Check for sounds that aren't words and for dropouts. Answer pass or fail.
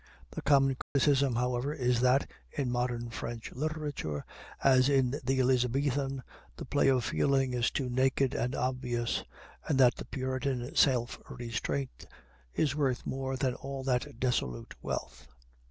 fail